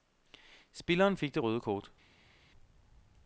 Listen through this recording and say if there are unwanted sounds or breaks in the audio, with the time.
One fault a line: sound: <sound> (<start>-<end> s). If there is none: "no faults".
no faults